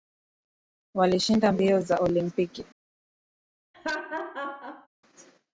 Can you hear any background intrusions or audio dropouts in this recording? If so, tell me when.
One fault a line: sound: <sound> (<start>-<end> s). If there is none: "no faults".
sound: laugh (3.7-4.9 s)